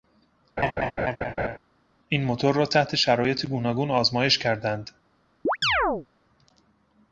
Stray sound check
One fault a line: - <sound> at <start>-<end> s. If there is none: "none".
- laugh at 0.6-1.6 s
- chirp at 5.5-6.1 s